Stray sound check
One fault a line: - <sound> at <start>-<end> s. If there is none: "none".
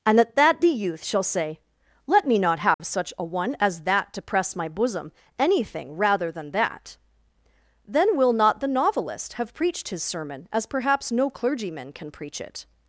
- dropout at 2.7-2.8 s